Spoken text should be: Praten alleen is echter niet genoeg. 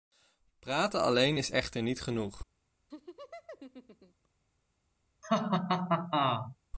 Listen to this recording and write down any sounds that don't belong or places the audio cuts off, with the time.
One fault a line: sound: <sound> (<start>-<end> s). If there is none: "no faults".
sound: laugh (2.9-4.3 s)
sound: laugh (5.2-6.6 s)